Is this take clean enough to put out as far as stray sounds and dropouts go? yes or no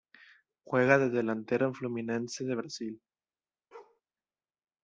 no